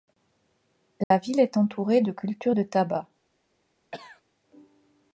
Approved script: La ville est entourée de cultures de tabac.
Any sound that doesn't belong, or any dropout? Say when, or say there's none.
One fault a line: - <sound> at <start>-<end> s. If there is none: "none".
- dropout at 1.0-1.1 s
- cough at 3.9-4.2 s